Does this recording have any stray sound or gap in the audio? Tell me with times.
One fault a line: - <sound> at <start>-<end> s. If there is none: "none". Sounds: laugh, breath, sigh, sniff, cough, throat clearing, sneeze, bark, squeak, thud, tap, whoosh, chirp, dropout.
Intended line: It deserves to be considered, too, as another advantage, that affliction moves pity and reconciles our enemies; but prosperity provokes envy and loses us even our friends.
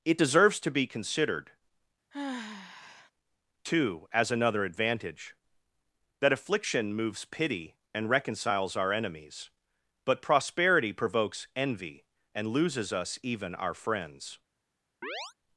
- sigh at 2.1-3.1 s
- chirp at 15.0-15.3 s